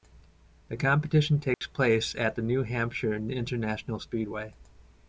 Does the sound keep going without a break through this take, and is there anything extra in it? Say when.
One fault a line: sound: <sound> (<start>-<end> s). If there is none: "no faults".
sound: dropout (1.5-1.6 s)